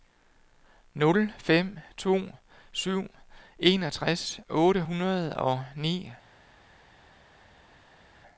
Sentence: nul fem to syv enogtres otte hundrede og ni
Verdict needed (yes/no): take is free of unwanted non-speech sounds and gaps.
yes